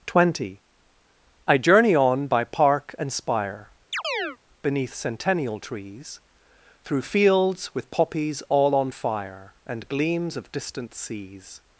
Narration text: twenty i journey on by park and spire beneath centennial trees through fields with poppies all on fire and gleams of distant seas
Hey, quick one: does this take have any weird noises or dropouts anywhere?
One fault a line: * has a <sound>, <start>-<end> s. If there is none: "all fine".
* has a chirp, 3.9-4.4 s